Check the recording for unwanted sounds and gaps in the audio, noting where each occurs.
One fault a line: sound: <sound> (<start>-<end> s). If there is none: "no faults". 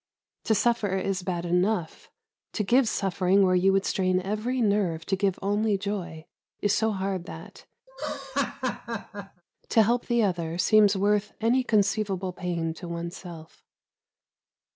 sound: laugh (7.9-9.4 s)